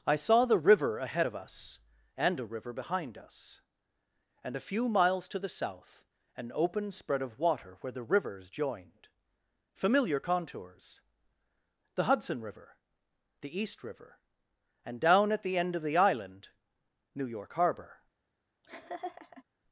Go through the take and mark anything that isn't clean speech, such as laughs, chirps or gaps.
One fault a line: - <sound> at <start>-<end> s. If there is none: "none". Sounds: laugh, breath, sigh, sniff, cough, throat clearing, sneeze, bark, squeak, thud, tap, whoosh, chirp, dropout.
- laugh at 18.6-19.4 s